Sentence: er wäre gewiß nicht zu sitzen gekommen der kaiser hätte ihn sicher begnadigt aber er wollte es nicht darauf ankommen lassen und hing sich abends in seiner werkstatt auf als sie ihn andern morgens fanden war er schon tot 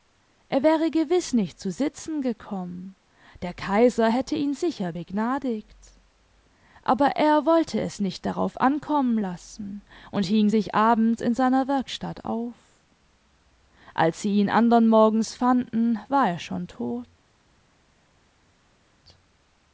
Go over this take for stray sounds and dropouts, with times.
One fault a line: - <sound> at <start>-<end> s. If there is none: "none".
none